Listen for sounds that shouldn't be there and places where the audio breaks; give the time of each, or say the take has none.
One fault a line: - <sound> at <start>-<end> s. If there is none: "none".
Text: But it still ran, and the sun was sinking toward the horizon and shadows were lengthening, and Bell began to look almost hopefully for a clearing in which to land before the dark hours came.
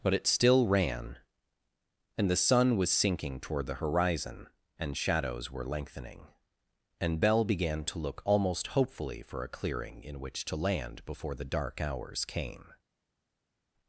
none